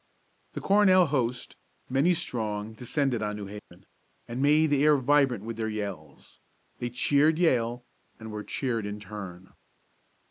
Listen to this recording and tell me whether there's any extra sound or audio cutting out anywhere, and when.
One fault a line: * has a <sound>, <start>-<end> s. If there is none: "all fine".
* has a dropout, 3.6-3.7 s